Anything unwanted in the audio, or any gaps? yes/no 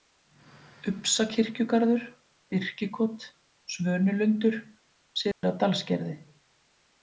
yes